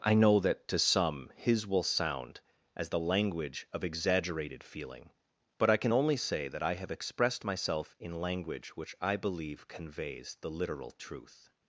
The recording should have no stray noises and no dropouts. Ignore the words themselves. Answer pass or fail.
pass